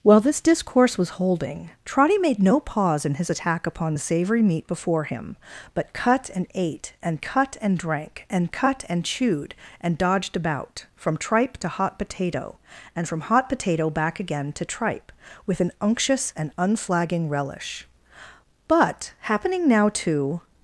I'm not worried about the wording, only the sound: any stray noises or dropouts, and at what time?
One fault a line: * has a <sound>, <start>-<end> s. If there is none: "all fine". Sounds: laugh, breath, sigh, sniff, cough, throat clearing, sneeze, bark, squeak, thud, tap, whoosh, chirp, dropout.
all fine